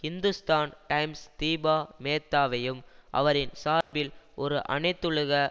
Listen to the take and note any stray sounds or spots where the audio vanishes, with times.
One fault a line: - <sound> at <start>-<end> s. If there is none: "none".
- dropout at 3.8-3.9 s